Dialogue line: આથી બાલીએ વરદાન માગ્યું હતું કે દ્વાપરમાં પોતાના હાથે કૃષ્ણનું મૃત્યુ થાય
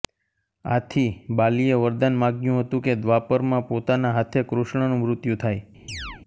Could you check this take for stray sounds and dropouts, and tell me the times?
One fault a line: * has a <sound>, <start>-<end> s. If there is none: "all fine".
* has a chirp, 5.9-6.2 s